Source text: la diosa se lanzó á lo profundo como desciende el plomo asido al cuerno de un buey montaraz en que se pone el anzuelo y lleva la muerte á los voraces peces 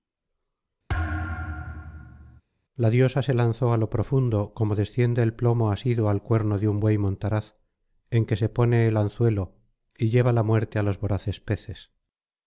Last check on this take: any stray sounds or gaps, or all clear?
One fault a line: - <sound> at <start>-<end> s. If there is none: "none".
- thud at 0.9-2.4 s